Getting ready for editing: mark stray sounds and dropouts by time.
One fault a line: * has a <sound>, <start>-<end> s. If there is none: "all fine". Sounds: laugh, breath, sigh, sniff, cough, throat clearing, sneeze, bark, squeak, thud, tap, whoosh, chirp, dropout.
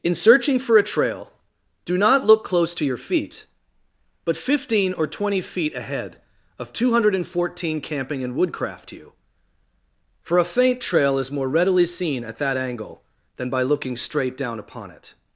all fine